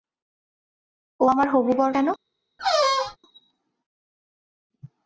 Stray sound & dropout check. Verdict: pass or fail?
fail